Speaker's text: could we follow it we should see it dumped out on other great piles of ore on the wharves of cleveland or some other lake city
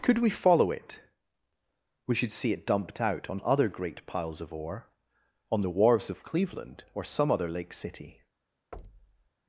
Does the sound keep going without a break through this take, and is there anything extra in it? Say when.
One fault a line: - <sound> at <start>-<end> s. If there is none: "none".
- thud at 8.7-9.3 s